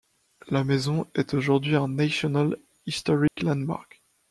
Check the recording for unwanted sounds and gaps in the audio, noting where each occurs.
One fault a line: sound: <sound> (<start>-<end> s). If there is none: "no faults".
sound: dropout (3.3-3.4 s)